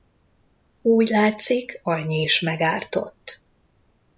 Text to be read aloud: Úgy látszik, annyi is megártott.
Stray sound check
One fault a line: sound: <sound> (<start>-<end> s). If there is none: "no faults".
no faults